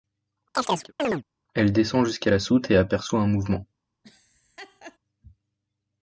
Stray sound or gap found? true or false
true